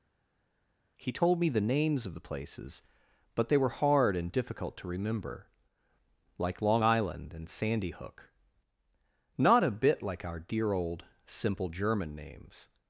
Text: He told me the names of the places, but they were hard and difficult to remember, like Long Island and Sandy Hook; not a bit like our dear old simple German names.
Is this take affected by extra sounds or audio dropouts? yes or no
no